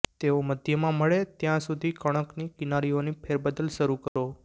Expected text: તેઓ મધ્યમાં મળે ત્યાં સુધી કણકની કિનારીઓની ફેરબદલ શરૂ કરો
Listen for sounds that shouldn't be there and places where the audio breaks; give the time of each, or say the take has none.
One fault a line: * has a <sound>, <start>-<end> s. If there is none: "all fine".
* has a dropout, 4.1-4.2 s